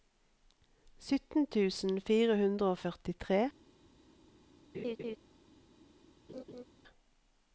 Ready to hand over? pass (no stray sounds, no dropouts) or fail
fail